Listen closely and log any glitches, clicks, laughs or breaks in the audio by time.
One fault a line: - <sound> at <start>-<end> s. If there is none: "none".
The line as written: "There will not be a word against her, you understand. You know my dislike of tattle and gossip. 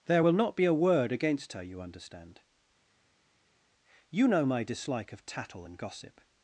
none